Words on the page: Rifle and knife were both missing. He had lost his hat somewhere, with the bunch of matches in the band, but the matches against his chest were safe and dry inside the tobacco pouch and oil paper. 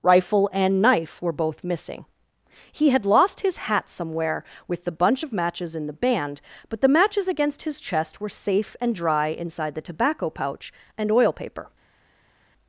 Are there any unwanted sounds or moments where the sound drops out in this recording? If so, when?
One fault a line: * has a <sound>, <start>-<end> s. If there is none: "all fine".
all fine